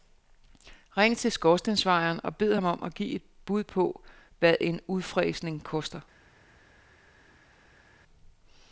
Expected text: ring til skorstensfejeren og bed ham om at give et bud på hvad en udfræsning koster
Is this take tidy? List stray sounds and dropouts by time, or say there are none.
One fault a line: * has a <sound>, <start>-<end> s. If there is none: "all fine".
all fine